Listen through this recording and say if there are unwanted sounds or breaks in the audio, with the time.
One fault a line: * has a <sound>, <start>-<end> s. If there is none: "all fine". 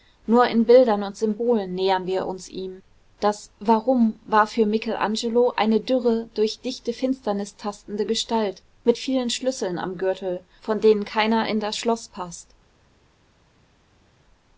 all fine